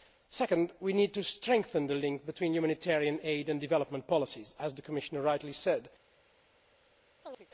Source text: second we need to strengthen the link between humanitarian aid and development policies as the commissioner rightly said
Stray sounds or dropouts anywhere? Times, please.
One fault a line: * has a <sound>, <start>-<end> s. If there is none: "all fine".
* has a chirp, 7.2-7.5 s